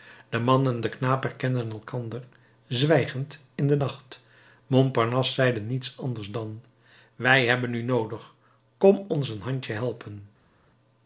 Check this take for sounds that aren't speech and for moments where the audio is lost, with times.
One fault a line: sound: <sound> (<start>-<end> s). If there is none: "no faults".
no faults